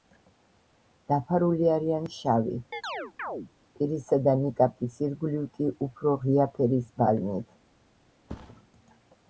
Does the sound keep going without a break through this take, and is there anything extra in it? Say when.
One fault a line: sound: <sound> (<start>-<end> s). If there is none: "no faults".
sound: chirp (2.7-3.5 s)
sound: thud (8.3-8.7 s)